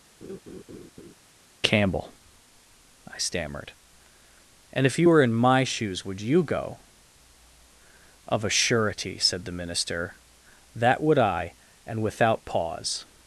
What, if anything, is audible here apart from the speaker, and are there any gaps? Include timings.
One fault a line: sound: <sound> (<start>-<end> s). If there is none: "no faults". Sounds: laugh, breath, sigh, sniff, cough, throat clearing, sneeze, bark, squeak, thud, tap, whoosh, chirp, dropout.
sound: laugh (0.2-1.1 s)